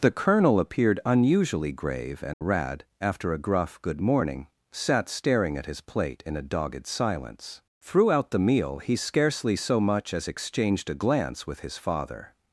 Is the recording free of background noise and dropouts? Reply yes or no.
no